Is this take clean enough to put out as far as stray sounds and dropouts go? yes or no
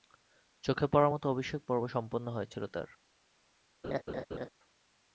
no